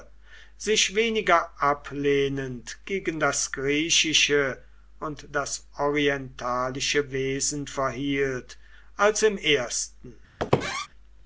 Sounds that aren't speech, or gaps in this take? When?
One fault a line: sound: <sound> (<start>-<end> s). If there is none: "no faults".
sound: squeak (10.4-10.9 s)